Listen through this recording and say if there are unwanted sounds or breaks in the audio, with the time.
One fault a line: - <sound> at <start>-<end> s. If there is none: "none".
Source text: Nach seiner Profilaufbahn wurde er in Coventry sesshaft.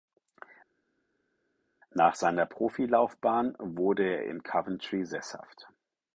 none